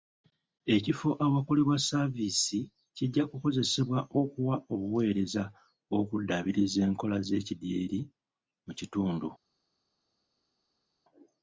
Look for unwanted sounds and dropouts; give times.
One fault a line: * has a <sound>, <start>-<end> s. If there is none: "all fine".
all fine